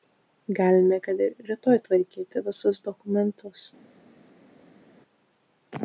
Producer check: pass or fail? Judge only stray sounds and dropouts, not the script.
pass